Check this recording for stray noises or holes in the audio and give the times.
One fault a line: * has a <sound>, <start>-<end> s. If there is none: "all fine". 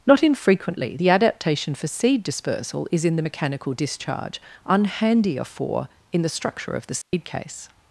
* has a dropout, 7.0-7.1 s